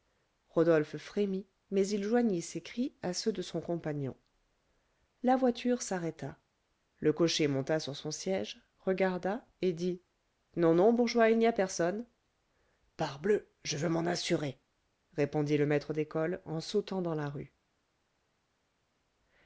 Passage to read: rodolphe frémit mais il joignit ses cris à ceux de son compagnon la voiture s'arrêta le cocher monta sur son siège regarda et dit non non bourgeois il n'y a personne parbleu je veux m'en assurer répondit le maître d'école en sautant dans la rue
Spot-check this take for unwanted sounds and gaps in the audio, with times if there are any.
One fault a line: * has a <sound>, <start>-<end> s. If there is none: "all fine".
all fine